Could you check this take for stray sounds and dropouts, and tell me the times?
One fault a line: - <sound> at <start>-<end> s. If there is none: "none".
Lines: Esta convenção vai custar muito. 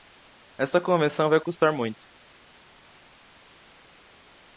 none